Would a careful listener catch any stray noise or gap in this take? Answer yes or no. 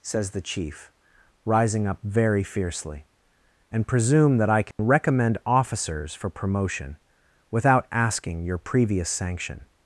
yes